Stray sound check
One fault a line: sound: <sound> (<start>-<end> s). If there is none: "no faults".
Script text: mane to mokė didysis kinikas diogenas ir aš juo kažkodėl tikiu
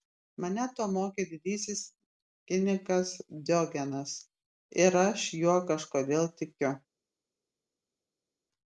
no faults